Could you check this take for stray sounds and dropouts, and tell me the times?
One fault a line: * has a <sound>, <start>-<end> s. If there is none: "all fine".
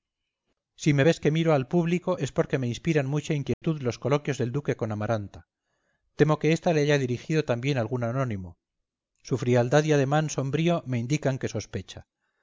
* has a dropout, 3.5-3.6 s